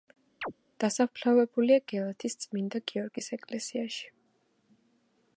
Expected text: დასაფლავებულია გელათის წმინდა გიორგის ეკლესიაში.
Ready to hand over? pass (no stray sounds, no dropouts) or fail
fail